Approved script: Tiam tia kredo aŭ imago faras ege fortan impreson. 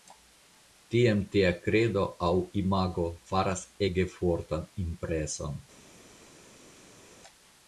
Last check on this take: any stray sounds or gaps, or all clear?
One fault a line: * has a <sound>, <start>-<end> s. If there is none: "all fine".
all fine